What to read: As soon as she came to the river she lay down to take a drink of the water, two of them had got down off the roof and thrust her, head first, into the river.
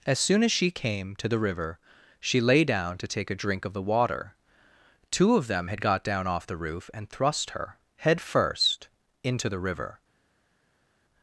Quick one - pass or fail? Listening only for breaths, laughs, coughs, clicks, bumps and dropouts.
pass